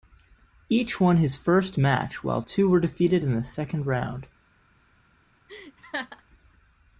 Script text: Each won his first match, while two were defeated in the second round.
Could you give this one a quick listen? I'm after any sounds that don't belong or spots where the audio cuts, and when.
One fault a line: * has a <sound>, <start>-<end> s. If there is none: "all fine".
* has a laugh, 5.5-6.2 s